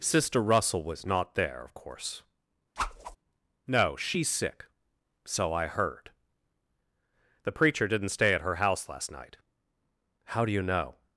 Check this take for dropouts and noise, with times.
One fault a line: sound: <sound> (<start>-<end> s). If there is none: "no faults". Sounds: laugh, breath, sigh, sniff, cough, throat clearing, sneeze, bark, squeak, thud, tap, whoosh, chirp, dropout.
sound: whoosh (2.8-3.2 s)